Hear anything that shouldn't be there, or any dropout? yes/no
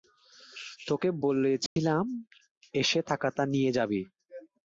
yes